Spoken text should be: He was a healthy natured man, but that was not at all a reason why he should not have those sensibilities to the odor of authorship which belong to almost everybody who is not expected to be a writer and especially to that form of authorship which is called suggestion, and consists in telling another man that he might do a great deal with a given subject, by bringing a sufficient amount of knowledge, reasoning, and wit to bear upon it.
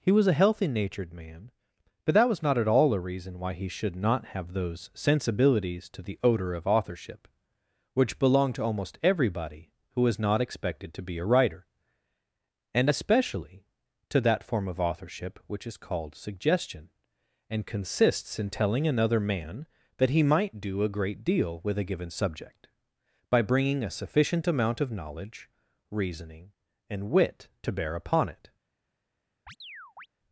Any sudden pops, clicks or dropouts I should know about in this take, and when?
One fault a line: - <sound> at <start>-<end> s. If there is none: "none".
- chirp at 29.5-30.1 s